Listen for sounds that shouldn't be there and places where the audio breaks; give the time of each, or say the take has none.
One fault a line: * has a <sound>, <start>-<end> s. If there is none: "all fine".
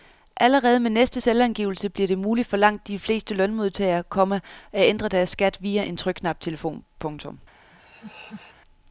* has a laugh, 7.7-8.6 s